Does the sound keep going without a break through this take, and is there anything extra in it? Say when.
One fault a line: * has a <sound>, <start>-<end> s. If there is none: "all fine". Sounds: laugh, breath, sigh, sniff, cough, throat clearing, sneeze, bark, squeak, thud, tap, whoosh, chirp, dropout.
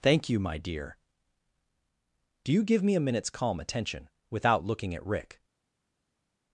all fine